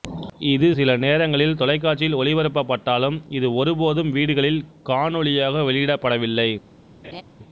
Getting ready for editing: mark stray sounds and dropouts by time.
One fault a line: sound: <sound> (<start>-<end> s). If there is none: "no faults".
sound: laugh (7.0-7.2 s)